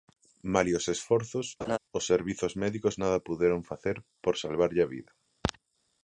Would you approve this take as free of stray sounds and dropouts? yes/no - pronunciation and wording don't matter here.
no